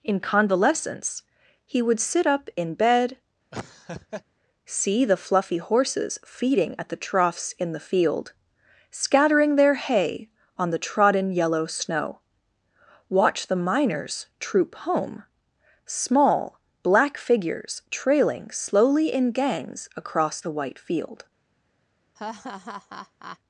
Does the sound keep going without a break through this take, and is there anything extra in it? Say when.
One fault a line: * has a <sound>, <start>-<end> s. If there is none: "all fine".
* has a laugh, 3.5-4.2 s
* has a laugh, 22.2-23.4 s